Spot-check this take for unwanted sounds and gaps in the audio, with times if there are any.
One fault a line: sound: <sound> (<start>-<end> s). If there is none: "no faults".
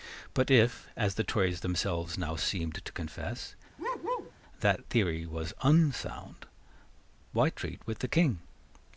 sound: bark (3.8-4.3 s)